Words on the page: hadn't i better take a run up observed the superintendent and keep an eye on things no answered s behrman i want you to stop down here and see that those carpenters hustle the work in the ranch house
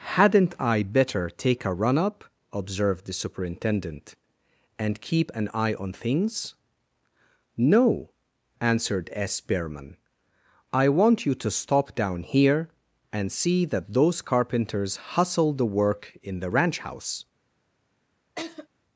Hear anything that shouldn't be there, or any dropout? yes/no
yes